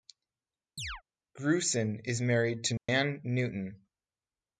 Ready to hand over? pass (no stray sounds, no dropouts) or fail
fail